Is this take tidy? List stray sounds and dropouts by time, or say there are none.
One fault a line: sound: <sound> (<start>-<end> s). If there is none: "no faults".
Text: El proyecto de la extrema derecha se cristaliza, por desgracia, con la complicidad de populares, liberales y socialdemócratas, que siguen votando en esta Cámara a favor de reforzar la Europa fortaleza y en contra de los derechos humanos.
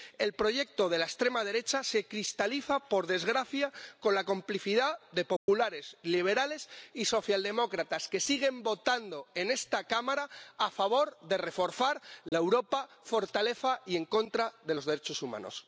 sound: dropout (5.4-5.5 s)
sound: dropout (12.3-12.3 s)